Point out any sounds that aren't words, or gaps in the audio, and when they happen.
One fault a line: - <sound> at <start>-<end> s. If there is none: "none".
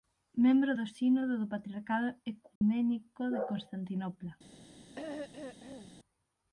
- dropout at 2.6-2.6 s
- throat clearing at 4.9-6.0 s